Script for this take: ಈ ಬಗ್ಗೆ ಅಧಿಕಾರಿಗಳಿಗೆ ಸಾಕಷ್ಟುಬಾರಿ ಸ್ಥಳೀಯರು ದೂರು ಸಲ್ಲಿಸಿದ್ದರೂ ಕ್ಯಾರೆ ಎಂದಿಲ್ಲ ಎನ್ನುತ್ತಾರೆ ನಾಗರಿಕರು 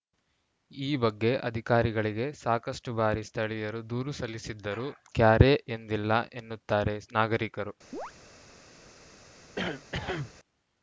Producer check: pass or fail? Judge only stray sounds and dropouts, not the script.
fail